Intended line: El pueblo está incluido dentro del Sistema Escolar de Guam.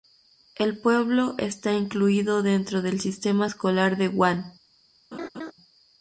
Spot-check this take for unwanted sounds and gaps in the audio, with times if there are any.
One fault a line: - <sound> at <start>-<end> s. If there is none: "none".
- laugh at 5.1-5.5 s